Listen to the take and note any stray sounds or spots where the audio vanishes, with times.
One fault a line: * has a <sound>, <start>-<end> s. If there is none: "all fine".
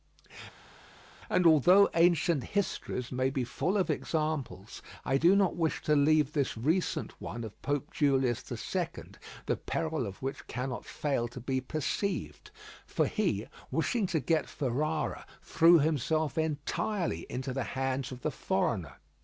all fine